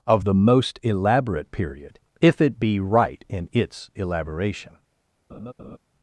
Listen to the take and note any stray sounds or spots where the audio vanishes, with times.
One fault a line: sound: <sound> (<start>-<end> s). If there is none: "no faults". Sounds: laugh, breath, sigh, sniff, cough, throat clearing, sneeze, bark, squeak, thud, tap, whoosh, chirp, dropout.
sound: laugh (5.3-5.8 s)